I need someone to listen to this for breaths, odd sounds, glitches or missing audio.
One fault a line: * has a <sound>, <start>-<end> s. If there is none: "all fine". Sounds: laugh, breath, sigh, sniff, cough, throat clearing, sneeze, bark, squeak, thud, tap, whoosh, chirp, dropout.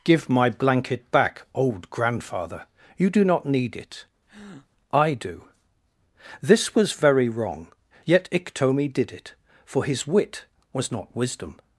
* has a breath, 4.3-4.7 s